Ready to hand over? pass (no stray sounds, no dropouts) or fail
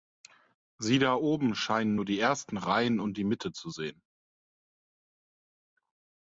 pass